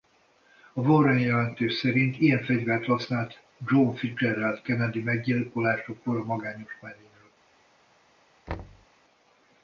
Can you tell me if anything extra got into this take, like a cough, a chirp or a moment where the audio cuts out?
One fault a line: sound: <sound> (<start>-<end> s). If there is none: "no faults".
sound: thud (8.5-8.9 s)